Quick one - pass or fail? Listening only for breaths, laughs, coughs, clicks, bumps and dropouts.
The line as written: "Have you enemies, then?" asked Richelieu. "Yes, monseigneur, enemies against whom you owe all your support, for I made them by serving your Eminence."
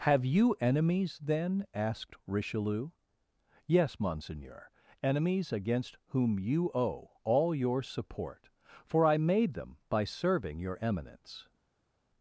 pass